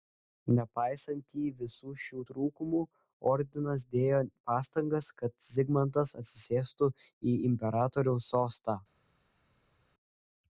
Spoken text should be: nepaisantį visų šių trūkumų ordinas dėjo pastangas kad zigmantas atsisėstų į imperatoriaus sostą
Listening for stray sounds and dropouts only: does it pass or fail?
pass